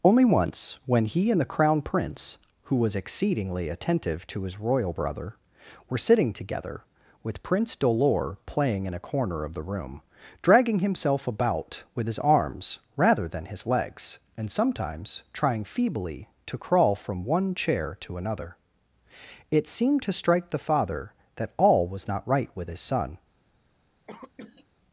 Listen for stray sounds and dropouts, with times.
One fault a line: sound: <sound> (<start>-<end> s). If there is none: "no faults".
sound: cough (24.1-24.7 s)